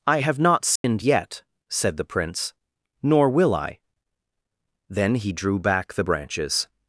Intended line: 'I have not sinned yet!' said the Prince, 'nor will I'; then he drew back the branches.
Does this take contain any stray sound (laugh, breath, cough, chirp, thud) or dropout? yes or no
yes